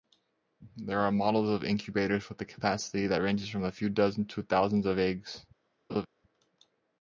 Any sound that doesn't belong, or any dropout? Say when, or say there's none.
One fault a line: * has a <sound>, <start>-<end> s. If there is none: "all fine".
* has a laugh, 5.9-6.1 s